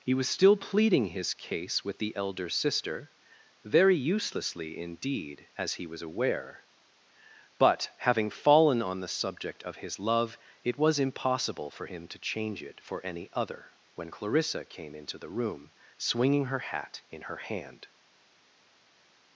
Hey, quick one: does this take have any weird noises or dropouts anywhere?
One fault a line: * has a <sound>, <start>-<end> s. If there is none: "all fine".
all fine